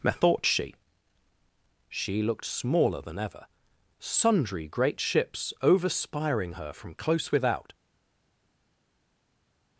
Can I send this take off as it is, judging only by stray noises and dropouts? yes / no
yes